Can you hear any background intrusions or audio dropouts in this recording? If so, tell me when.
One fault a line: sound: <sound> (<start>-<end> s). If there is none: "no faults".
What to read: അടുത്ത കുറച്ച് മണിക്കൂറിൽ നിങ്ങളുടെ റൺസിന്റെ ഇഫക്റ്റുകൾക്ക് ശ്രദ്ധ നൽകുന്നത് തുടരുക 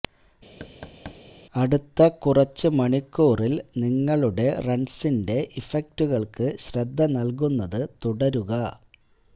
sound: thud (0.6-1.2 s)